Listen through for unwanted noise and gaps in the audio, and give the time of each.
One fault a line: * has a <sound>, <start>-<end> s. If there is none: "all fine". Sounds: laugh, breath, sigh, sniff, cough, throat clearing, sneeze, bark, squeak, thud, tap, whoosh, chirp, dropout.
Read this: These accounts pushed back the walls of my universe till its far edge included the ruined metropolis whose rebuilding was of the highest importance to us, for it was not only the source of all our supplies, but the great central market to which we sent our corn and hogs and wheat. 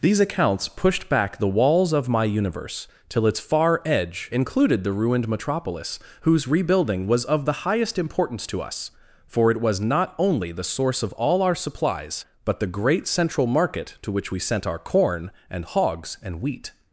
all fine